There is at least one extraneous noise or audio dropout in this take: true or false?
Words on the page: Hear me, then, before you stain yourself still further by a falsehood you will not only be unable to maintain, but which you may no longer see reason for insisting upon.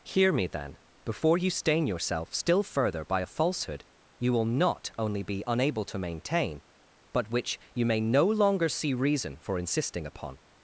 false